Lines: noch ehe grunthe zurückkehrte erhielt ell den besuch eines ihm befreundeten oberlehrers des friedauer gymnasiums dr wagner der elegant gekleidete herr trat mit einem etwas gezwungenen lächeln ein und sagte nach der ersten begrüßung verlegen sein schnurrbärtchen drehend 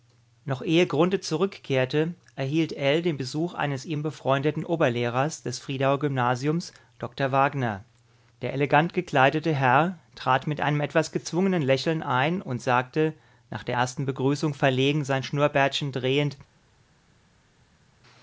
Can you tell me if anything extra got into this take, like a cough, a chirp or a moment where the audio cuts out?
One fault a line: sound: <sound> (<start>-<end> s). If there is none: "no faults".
no faults